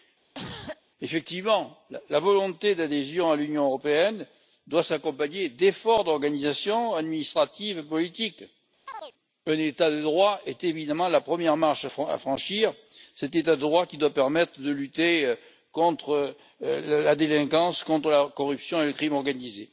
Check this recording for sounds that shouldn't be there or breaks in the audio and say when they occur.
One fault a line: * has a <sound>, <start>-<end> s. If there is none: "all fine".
* has a cough, 0.3-0.8 s
* has a chirp, 8.9-9.1 s